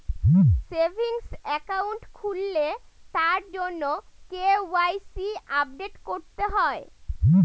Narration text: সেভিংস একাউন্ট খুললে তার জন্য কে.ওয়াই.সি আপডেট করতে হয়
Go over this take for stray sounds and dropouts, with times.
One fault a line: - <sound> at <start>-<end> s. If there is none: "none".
none